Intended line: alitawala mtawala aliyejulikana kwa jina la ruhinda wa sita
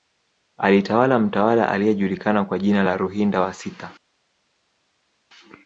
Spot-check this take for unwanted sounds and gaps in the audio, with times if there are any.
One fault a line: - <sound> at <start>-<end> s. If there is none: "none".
none